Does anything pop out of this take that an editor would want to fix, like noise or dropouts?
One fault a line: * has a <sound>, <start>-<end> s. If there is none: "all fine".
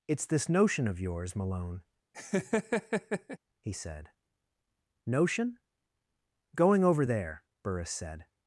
* has a laugh, 2.1-3.4 s